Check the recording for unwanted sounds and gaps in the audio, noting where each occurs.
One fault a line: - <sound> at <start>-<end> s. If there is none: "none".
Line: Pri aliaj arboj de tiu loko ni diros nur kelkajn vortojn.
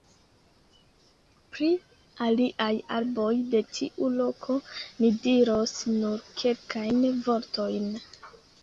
none